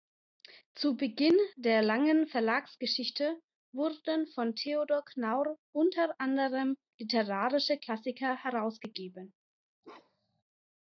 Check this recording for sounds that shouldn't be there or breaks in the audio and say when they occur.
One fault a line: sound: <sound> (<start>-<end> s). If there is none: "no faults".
sound: bark (9.8-10.4 s)